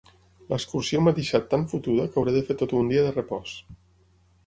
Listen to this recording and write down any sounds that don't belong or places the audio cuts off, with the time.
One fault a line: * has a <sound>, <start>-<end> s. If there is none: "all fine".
all fine